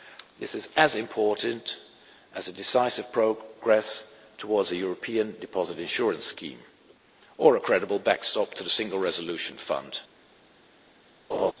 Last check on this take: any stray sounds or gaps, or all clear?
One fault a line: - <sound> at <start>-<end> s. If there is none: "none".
- laugh at 11.3-11.5 s